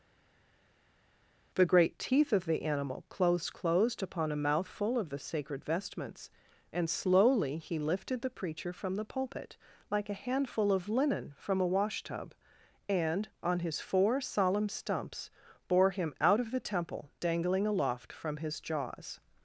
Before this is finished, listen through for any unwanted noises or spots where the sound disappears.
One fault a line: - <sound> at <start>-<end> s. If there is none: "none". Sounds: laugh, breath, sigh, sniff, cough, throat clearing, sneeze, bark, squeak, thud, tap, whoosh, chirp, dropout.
none